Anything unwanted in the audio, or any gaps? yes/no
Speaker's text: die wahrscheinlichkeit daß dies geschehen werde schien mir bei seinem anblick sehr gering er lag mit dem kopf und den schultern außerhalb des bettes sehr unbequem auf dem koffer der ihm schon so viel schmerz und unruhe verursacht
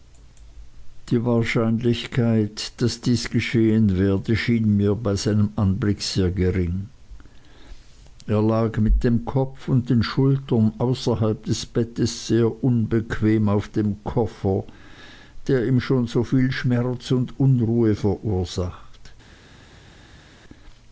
no